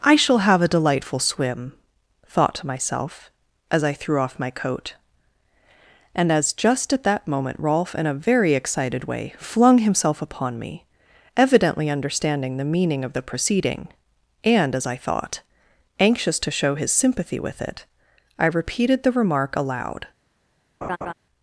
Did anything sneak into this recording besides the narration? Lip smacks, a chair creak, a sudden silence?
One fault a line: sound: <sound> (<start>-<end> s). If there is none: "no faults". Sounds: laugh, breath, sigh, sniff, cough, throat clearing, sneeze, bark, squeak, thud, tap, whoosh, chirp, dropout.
sound: laugh (20.8-21.1 s)